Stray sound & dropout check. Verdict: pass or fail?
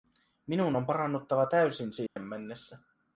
fail